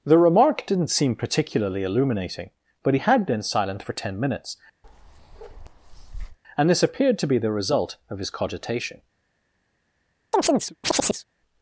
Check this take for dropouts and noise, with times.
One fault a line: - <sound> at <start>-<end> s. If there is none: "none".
- bark at 4.8-6.4 s
- chirp at 10.3-11.2 s